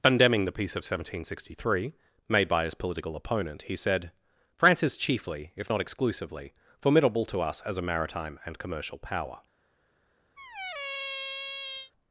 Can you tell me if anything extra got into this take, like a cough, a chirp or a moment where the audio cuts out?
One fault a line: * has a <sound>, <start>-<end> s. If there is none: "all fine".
* has a squeak, 10.4-11.9 s